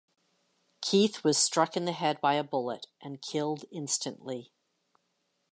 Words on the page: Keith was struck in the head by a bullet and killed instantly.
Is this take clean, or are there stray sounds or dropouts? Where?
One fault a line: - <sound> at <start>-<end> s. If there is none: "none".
none